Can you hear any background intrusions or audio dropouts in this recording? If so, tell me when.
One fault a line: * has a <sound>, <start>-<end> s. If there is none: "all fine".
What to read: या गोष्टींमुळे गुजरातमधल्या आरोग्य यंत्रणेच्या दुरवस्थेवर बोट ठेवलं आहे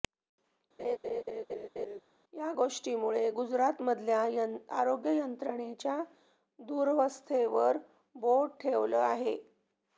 * has a laugh, 0.8-2.0 s